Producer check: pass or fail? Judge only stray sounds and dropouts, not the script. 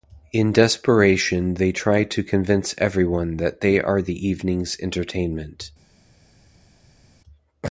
pass